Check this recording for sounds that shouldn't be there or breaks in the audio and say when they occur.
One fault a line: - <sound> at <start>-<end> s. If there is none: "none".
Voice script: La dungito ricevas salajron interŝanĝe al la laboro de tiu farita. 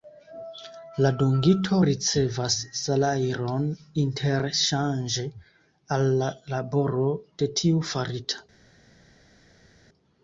none